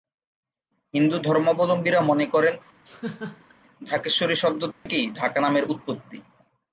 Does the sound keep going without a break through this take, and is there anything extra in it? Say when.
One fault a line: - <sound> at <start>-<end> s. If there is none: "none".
- laugh at 2.9-3.5 s
- dropout at 4.7-4.9 s